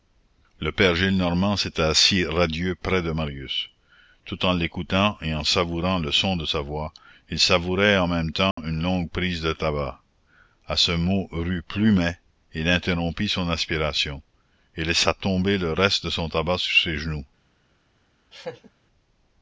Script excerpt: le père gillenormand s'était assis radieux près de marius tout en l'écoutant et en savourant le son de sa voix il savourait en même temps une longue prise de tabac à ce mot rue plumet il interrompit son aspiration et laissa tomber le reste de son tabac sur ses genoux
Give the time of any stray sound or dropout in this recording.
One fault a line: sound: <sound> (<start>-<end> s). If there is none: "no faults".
sound: dropout (8.5-8.6 s)
sound: laugh (18.3-18.7 s)